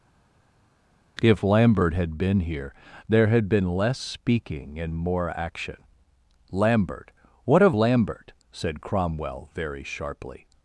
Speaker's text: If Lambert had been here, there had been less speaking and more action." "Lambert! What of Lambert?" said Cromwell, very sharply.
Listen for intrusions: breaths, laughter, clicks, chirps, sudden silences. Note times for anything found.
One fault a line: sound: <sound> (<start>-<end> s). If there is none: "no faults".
no faults